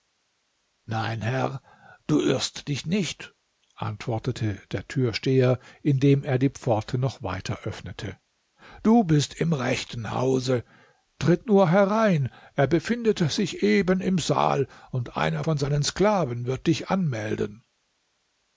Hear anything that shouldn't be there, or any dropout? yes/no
no